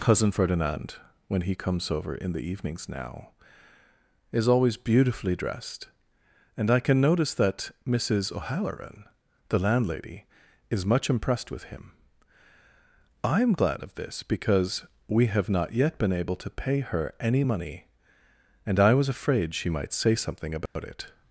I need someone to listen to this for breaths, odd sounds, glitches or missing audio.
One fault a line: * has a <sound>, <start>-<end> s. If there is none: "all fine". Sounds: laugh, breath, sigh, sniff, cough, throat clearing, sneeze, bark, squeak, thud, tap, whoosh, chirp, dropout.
* has a dropout, 20.7-20.8 s